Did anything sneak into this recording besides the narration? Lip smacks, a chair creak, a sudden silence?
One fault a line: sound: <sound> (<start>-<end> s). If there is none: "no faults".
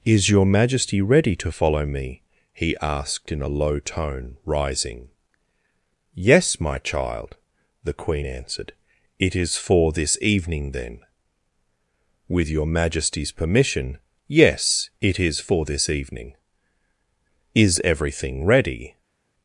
no faults